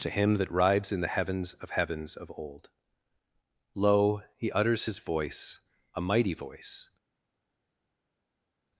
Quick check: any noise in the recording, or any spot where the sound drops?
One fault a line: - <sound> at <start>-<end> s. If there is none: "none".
none